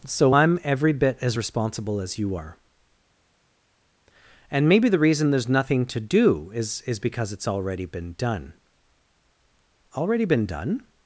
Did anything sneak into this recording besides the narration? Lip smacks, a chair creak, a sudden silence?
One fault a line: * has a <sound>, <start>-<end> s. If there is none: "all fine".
all fine